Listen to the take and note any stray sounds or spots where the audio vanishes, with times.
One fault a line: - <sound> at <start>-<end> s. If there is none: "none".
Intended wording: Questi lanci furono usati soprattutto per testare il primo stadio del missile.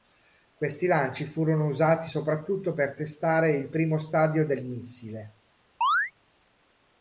- chirp at 5.8-6.1 s